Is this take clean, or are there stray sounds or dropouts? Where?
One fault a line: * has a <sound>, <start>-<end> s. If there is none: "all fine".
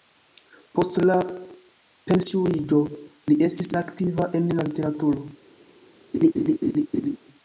* has a laugh, 6.1-7.2 s